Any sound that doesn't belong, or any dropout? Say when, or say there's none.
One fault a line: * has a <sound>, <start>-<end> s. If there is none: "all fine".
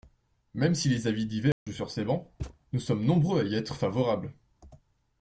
* has a dropout, 1.5-1.7 s
* has a thud, 2.4-2.6 s